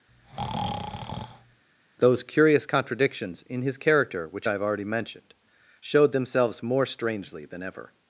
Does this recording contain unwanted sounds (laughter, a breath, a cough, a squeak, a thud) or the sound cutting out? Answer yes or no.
yes